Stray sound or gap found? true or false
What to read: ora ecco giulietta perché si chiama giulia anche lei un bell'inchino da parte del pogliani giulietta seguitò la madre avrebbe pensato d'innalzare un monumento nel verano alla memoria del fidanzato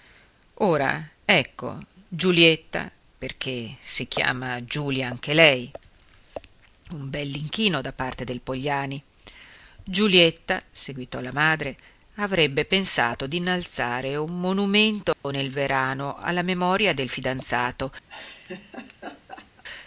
true